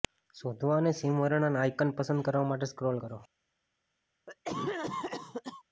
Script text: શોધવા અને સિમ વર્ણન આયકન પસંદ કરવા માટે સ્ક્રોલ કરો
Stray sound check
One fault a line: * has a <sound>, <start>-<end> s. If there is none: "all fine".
* has a cough, 4.3-5.6 s